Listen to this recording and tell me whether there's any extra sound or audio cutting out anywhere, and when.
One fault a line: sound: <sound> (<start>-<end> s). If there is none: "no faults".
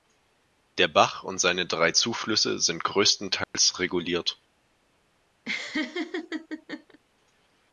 sound: dropout (3.4-3.5 s)
sound: laugh (5.4-7.0 s)